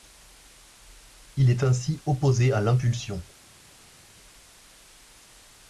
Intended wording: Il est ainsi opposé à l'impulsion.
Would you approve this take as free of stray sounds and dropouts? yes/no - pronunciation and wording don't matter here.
yes